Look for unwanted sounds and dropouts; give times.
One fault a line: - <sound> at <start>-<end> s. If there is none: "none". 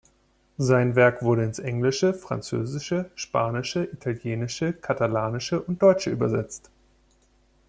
none